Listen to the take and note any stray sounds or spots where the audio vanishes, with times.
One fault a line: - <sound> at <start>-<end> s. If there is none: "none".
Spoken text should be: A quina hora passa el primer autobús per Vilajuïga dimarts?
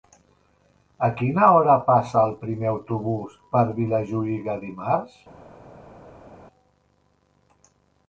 none